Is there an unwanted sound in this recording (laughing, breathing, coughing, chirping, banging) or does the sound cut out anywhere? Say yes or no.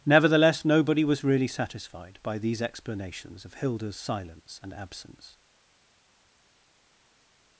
no